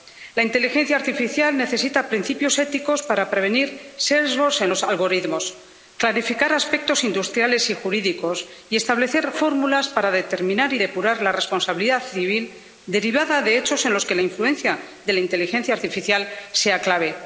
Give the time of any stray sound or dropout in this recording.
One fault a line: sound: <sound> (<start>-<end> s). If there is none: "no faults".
no faults